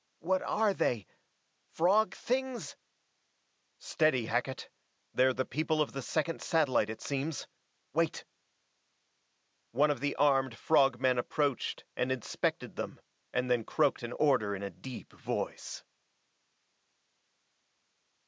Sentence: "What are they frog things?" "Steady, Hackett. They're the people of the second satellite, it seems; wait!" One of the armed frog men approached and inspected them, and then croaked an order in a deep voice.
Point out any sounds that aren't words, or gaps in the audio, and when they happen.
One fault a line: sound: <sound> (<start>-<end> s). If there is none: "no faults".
no faults